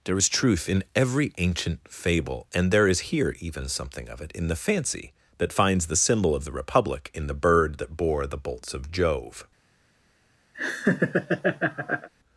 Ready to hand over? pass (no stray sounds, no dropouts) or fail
fail